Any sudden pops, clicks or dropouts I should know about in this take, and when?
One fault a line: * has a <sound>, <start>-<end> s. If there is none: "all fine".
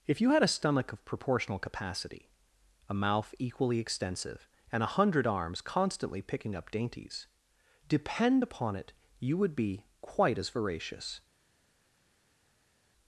all fine